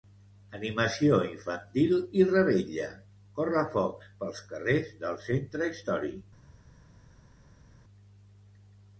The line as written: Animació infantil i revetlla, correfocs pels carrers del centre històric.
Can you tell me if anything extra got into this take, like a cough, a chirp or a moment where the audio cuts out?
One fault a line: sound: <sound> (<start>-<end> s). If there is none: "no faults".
no faults